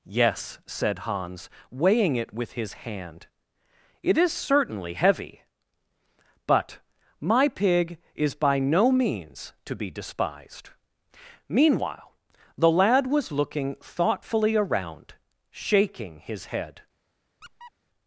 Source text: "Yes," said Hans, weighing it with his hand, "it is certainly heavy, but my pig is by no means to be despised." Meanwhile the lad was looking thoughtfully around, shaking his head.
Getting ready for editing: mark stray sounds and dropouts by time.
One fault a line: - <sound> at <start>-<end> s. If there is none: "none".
- squeak at 17.4-17.7 s